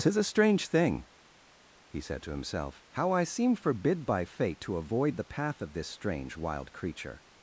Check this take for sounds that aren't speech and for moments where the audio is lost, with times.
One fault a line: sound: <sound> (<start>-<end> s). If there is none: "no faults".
no faults